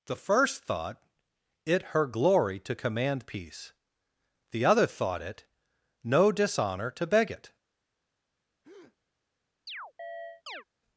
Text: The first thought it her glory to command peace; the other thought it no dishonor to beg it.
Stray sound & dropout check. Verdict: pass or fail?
fail